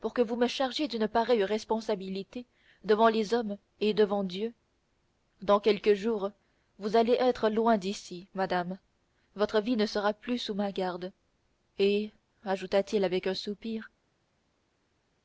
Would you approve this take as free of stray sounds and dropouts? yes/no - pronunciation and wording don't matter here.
yes